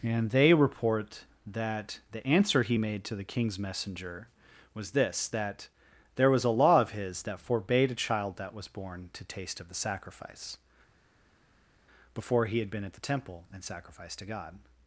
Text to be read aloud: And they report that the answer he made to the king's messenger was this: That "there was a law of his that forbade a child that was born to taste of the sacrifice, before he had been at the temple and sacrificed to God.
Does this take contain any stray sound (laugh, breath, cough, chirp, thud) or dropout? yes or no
no